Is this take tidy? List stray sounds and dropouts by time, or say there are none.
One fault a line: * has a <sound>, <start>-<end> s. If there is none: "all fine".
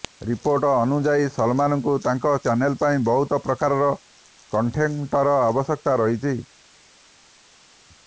all fine